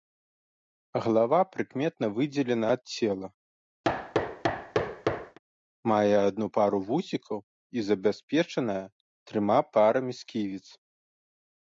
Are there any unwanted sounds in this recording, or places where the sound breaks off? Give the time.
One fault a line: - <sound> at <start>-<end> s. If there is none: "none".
- thud at 3.8-5.4 s